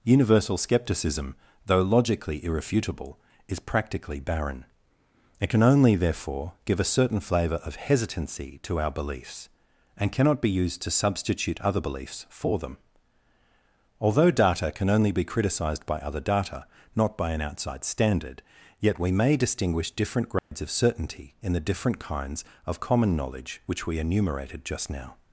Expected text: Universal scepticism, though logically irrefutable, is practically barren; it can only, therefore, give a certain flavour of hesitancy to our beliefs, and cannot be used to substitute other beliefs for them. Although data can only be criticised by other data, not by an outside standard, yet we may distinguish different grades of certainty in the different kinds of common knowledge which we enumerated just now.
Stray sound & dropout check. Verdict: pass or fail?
fail